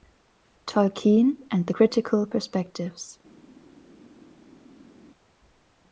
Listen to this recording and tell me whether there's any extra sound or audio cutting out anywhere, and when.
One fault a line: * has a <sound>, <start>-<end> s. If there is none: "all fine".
all fine